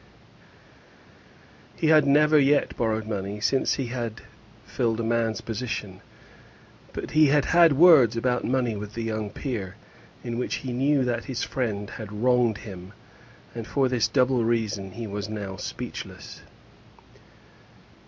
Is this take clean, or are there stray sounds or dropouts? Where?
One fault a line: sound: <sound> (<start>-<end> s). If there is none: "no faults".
no faults